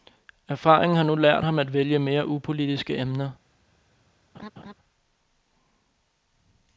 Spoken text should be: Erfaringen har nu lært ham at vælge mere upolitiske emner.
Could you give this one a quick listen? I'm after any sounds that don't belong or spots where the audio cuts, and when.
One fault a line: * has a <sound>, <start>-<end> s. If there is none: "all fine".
* has a laugh, 4.3-4.7 s